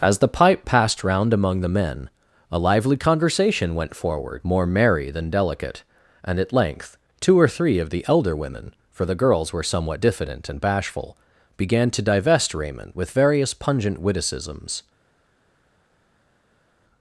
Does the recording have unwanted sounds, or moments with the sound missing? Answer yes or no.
no